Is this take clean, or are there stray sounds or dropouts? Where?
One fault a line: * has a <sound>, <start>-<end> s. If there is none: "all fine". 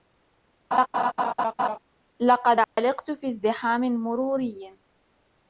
* has a laugh, 0.7-1.8 s
* has a dropout, 2.6-2.8 s